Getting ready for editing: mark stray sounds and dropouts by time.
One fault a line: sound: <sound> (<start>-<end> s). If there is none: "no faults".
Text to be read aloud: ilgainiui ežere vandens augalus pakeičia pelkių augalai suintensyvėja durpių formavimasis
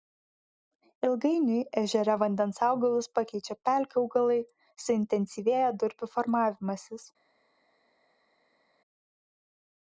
no faults